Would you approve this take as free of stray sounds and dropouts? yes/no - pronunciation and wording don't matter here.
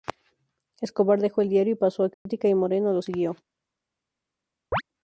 no